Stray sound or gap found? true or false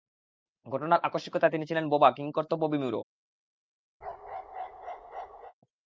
true